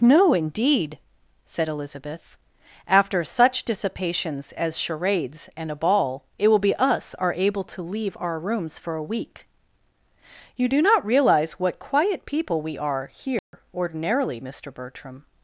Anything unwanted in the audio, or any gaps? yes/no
yes